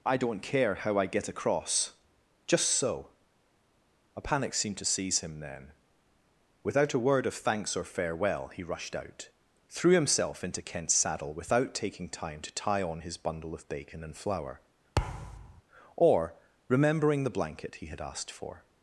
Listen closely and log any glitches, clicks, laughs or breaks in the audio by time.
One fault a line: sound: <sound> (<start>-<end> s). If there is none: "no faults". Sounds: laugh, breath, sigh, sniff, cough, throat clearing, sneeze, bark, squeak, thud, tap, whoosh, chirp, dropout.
sound: thud (15.0-15.6 s)